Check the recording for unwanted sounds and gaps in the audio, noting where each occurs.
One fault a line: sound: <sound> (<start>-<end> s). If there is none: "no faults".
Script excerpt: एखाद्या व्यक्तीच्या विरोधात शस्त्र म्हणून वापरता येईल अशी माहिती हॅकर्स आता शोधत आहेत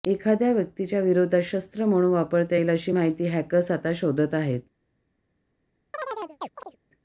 sound: chirp (5.9-6.8 s)